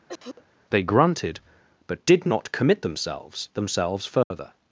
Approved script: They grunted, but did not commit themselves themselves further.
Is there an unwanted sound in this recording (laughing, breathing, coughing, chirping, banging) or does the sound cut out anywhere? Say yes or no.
yes